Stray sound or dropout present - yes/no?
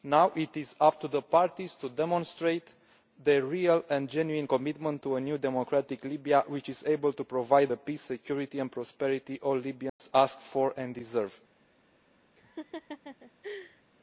yes